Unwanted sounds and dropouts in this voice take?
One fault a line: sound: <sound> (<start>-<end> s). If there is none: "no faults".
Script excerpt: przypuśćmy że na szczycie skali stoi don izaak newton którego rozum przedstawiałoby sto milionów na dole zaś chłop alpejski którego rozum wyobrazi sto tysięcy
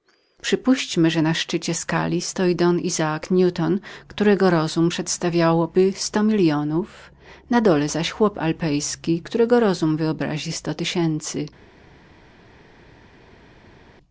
no faults